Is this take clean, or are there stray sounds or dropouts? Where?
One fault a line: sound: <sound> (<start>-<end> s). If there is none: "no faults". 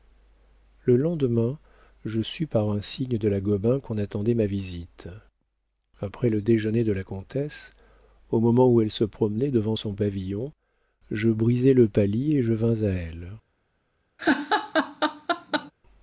sound: laugh (14.2-15.7 s)